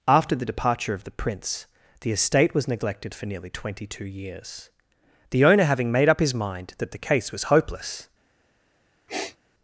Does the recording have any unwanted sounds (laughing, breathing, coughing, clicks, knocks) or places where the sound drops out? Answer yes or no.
yes